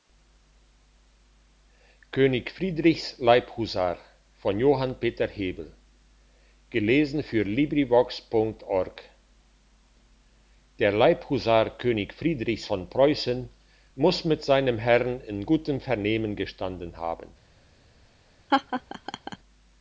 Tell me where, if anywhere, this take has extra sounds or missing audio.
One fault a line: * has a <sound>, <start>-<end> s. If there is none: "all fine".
* has a laugh, 18.5-19.4 s